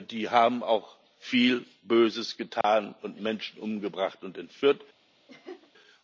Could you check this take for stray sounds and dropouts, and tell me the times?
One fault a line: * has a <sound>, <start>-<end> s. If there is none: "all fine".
* has a dropout, 2.6-2.6 s
* has a laugh, 5.3-5.7 s